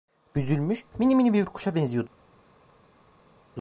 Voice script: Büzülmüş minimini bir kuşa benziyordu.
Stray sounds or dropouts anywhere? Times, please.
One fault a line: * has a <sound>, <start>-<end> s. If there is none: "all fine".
all fine